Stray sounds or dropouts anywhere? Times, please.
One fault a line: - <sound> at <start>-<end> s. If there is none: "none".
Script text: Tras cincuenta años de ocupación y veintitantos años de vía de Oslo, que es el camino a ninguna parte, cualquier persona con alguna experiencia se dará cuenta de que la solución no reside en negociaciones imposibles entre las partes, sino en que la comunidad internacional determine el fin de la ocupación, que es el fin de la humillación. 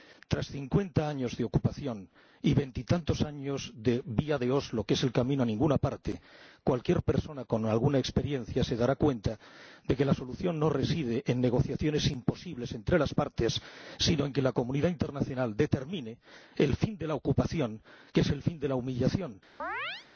- chirp at 19.6-20.1 s